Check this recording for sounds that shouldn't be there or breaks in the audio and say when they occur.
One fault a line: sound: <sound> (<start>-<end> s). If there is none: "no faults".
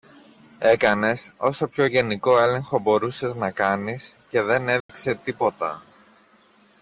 sound: dropout (4.8-4.9 s)